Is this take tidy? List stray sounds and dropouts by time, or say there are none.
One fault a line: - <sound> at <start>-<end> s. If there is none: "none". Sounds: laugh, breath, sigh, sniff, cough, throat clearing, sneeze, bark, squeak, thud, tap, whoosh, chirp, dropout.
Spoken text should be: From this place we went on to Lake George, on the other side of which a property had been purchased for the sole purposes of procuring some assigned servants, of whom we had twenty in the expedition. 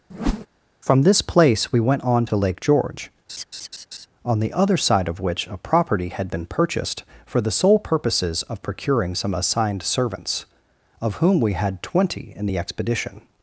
- whoosh at 0.1-0.5 s
- laugh at 3.3-4.1 s